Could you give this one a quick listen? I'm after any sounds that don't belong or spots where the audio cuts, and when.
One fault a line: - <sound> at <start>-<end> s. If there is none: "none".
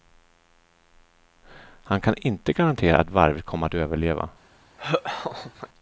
- laugh at 4.8-5.7 s